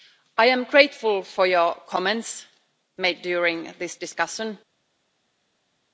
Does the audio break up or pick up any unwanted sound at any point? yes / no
no